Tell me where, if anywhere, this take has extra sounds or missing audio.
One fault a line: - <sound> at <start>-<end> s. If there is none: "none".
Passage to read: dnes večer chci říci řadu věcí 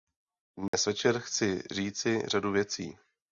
- dropout at 0.7-0.7 s